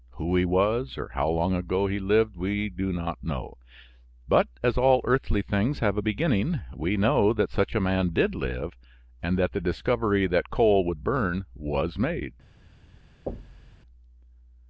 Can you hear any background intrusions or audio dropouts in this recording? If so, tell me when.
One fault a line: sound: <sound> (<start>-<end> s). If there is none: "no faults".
sound: thud (13.3-13.8 s)